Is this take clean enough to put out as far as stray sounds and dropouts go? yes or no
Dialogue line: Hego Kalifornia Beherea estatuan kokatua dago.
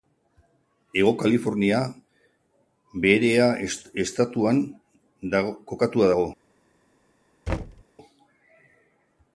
no